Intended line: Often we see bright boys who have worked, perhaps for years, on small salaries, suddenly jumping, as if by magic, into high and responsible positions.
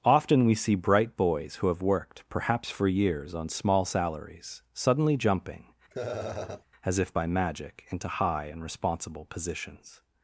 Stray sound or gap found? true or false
true